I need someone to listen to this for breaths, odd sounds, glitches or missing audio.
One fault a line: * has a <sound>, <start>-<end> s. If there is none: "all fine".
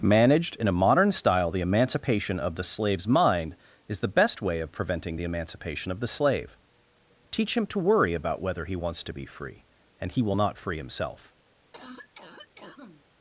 * has a cough, 11.7-13.1 s